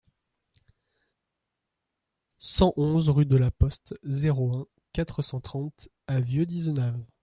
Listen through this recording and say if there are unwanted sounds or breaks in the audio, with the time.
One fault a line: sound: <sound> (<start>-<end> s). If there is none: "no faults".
no faults